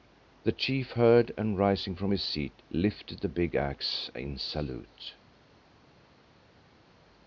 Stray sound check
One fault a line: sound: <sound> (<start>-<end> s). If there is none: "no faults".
no faults